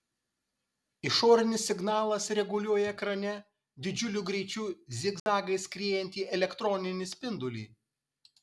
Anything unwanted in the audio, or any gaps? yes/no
yes